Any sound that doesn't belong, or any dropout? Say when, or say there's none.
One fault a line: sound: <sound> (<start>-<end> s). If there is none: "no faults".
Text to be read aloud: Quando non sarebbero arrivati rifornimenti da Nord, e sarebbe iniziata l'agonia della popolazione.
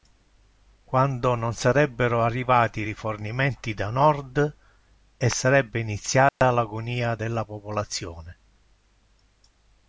sound: dropout (6.3-6.4 s)